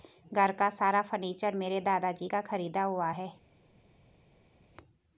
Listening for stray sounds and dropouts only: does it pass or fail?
pass